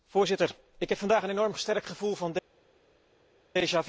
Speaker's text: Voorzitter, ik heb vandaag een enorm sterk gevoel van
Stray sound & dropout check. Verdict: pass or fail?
pass